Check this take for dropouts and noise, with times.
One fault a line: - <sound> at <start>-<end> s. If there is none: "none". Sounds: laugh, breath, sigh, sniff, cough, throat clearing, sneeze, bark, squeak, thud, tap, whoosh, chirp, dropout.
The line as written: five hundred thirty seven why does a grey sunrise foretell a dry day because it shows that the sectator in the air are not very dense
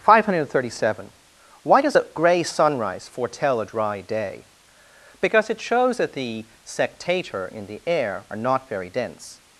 none